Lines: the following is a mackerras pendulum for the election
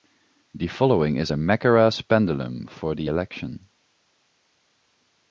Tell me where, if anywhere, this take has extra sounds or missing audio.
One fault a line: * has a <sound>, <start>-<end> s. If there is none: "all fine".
all fine